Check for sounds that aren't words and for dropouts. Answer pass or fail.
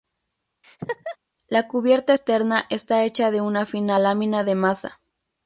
fail